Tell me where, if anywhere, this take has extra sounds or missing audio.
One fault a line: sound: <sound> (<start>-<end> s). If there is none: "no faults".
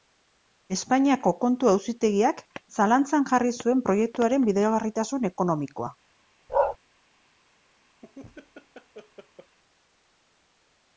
sound: bark (6.5-6.8 s)
sound: laugh (8.0-9.6 s)